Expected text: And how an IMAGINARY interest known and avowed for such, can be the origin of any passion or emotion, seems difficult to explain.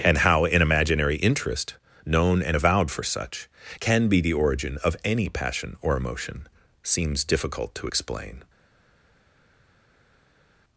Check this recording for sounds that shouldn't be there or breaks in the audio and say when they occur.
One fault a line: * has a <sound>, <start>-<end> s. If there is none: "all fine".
all fine